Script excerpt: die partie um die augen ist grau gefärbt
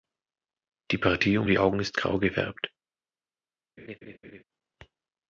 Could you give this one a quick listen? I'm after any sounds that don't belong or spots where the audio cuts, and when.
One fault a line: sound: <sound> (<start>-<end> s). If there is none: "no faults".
sound: laugh (3.8-4.4 s)